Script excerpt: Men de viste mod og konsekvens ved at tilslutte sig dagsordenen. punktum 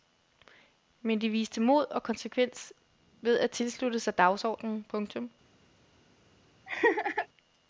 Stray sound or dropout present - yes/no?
yes